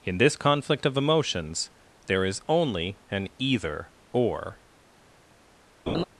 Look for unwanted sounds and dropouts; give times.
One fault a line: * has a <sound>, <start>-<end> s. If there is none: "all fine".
* has a laugh, 5.9-6.0 s